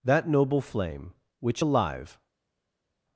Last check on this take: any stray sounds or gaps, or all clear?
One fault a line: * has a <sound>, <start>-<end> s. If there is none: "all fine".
all fine